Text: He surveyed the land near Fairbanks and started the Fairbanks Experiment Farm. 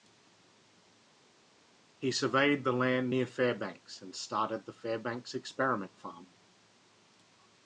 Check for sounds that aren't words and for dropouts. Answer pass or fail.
pass